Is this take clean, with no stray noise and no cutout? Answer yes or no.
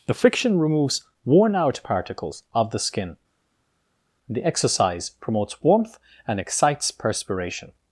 yes